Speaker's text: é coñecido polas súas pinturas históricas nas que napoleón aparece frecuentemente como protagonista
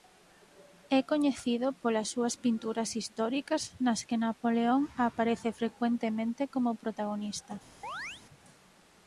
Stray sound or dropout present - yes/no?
yes